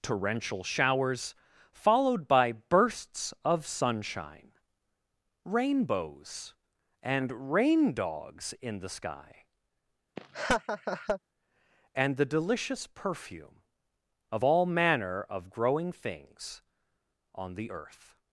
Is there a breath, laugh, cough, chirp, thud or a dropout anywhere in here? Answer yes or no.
yes